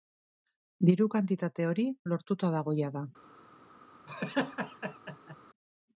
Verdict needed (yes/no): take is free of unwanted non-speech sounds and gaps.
no